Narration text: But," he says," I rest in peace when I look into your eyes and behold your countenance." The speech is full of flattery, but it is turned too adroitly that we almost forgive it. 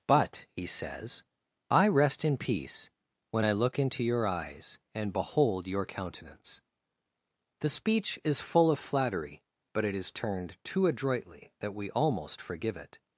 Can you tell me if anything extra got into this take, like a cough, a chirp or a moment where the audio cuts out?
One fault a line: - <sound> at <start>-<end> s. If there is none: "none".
none